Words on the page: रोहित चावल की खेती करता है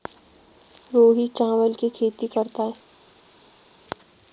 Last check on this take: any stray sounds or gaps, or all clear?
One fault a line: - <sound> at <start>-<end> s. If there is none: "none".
none